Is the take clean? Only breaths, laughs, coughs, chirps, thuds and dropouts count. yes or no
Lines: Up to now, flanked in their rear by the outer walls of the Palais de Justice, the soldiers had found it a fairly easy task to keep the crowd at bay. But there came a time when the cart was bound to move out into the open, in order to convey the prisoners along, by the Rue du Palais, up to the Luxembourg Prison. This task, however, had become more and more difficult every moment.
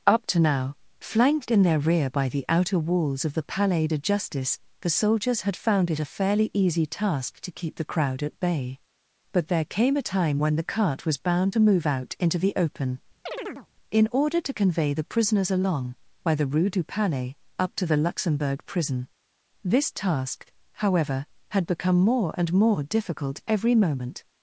no